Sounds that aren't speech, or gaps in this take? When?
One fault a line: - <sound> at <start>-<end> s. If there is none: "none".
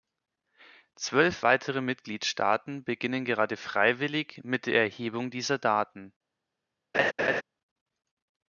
- laugh at 6.9-7.4 s